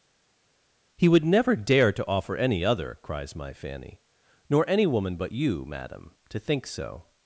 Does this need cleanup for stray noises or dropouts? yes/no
no